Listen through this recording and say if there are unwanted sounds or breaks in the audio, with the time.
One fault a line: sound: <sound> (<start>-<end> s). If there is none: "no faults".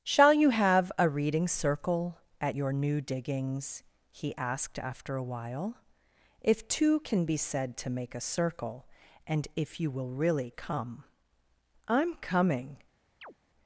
sound: chirp (13.2-13.3 s)